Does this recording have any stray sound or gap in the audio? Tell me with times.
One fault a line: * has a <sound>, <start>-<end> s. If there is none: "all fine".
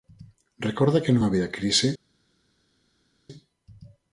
all fine